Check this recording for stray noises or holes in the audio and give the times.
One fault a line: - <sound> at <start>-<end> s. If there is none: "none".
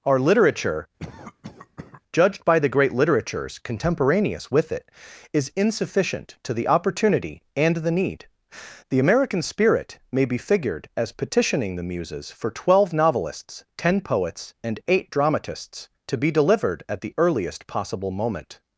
- cough at 1.0-2.0 s